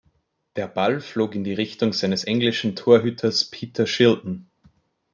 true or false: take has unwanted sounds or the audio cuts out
false